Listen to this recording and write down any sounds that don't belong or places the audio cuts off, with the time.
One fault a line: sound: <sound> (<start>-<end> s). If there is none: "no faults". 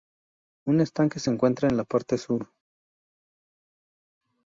no faults